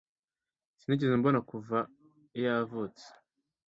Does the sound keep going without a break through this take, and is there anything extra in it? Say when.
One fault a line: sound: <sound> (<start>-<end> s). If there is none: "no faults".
no faults